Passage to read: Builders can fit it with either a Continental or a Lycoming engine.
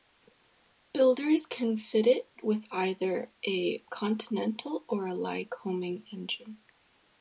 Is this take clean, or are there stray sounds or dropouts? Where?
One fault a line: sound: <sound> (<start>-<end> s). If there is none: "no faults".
no faults